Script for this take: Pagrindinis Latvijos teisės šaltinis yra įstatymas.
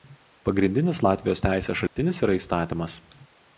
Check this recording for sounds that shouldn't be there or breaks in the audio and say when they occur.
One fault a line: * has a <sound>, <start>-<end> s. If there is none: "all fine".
* has a dropout, 1.9-2.0 s